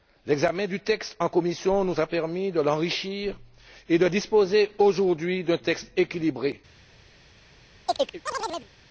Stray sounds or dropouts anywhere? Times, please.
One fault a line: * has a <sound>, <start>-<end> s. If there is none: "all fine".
* has a chirp, 7.9-8.7 s